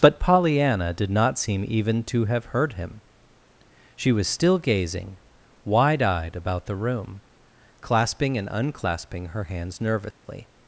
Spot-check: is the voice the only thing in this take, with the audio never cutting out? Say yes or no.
no